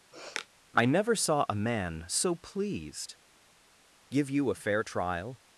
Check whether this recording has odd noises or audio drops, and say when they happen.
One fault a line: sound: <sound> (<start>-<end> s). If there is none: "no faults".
sound: sniff (0.1-0.5 s)